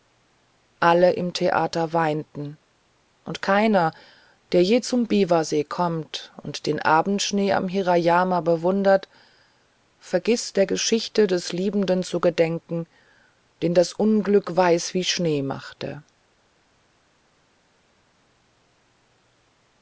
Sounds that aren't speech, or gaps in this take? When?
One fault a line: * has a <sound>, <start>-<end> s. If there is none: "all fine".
all fine